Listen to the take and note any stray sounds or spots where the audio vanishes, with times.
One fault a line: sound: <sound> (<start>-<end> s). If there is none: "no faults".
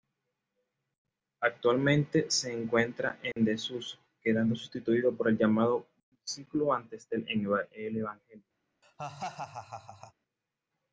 sound: dropout (3.3-3.4 s)
sound: laugh (8.8-10.1 s)